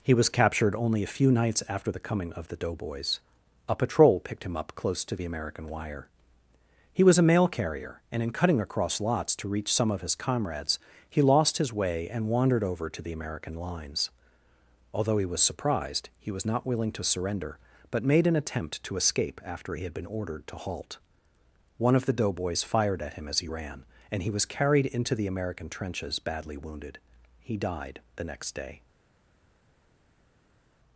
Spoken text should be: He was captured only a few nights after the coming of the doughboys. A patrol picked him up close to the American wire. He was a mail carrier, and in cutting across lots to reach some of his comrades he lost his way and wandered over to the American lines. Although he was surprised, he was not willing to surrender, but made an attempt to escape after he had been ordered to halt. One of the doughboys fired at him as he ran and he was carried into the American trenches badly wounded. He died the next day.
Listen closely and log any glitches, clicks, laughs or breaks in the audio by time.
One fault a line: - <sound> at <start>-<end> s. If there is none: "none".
none